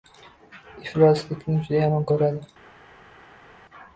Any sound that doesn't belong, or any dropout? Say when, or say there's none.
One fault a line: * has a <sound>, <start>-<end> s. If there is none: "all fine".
all fine